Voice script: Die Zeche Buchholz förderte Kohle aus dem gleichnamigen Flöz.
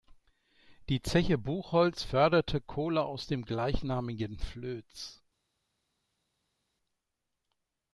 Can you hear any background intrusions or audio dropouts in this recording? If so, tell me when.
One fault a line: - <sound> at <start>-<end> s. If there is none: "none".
none